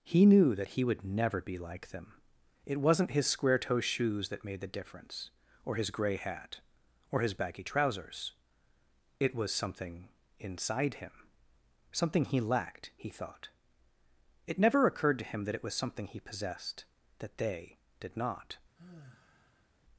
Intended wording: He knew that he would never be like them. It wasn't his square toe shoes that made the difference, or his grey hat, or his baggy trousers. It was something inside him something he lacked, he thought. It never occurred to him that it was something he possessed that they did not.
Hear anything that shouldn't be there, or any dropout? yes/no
yes